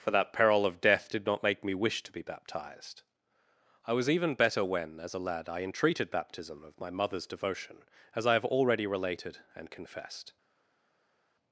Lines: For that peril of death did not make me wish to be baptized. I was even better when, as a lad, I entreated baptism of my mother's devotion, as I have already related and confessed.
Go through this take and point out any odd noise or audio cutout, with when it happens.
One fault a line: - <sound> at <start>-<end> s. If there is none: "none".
none